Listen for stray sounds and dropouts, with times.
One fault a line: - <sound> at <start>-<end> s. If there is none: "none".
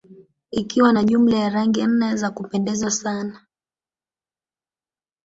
none